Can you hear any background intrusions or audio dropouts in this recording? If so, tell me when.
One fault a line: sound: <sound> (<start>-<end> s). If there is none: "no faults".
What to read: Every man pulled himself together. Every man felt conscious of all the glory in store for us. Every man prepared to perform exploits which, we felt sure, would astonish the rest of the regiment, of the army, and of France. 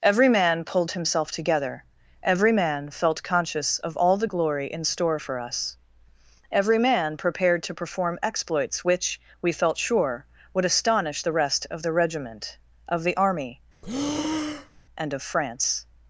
sound: breath (13.8-14.9 s)